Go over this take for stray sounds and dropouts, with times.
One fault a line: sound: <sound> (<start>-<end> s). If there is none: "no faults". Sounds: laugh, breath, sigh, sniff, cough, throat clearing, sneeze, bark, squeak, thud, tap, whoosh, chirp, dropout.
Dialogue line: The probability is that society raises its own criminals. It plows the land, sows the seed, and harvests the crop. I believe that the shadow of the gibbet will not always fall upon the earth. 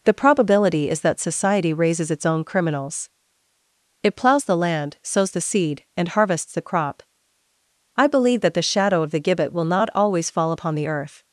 no faults